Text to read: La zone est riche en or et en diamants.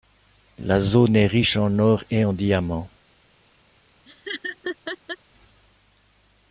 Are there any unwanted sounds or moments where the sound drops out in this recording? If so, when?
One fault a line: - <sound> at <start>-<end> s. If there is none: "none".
- laugh at 4.1-5.2 s